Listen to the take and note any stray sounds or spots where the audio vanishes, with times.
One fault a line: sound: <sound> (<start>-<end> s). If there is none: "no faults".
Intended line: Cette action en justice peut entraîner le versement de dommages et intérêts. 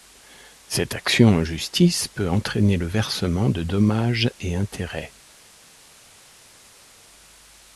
no faults